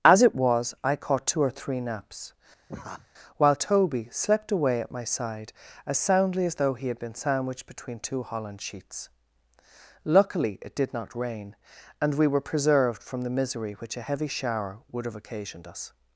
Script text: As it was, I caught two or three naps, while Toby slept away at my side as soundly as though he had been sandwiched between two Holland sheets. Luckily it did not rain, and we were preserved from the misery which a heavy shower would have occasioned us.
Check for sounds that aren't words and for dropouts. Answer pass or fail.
fail